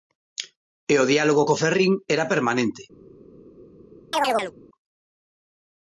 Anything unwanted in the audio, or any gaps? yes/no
yes